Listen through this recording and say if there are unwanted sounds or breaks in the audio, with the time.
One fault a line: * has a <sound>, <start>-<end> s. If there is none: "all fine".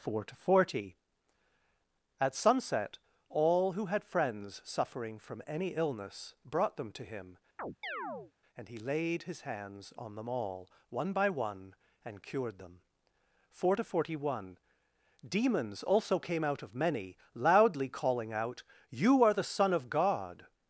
* has a chirp, 7.6-8.3 s